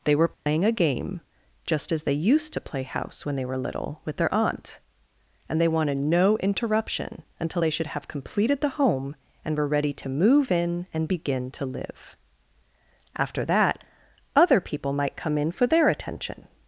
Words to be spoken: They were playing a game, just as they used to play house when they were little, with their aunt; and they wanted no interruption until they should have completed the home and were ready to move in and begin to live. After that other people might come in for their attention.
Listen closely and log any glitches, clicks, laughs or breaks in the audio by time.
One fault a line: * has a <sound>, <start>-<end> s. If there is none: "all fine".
* has a dropout, 0.3-0.5 s